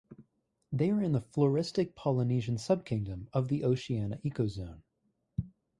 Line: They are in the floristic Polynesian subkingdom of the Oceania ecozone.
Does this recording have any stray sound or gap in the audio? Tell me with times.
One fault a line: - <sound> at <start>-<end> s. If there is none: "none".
none